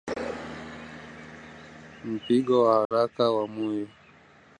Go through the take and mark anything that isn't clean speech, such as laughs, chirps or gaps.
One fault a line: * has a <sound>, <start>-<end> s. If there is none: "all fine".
* has a dropout, 2.8-2.9 s